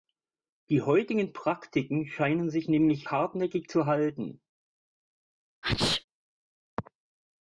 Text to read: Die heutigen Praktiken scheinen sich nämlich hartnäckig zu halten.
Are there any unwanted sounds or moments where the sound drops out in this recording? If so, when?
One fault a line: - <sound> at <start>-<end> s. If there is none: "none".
- sneeze at 5.6-6.0 s